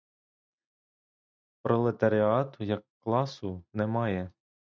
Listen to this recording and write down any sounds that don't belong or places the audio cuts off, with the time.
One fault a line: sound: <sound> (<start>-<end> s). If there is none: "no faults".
no faults